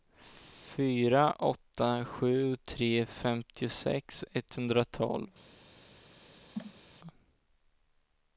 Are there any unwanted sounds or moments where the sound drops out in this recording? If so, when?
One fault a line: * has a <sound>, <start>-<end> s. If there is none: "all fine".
* has a cough, 6.5-6.8 s